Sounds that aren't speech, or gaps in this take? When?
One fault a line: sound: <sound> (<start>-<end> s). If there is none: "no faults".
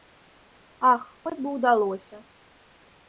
no faults